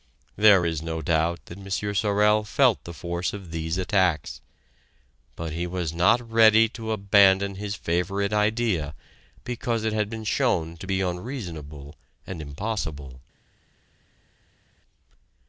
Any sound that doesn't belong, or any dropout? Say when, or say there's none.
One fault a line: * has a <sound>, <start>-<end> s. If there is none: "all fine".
all fine